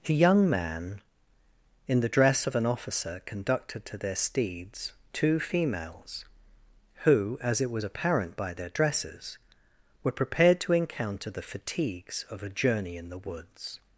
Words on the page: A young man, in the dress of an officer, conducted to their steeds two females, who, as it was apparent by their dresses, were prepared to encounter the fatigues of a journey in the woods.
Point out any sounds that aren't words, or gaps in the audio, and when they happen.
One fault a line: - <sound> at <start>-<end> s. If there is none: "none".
none